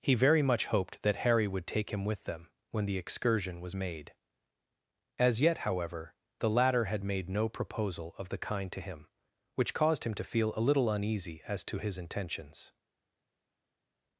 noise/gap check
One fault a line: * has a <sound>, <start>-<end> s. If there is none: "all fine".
all fine